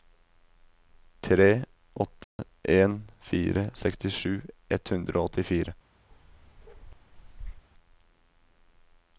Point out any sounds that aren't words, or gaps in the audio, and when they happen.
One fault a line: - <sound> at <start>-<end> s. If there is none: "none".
- dropout at 2.2-2.4 s
- bark at 6.1-7.7 s